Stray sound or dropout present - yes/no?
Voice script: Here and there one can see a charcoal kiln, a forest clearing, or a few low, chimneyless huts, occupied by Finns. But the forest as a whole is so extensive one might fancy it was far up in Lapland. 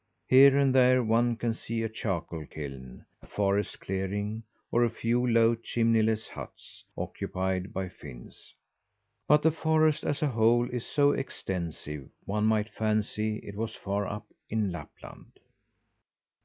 no